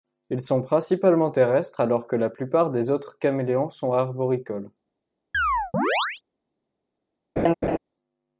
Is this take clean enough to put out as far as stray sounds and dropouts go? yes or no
no